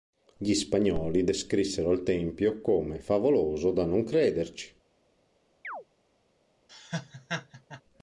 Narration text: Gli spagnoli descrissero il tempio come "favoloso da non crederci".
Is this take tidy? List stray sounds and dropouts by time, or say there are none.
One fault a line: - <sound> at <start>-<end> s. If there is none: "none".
- chirp at 5.6-5.8 s
- laugh at 6.7-7.8 s